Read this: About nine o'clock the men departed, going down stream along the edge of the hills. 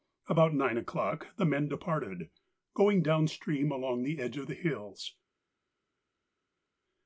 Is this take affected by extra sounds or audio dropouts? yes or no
no